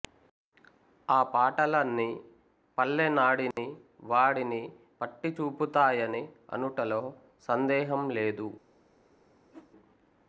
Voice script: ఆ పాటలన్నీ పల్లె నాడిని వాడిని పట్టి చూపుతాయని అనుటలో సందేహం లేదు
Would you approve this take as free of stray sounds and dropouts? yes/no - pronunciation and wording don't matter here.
no